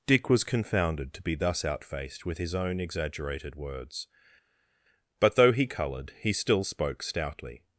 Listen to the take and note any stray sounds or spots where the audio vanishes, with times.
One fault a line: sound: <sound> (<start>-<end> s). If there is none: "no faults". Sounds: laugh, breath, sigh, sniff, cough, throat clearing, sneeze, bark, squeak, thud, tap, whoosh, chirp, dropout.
no faults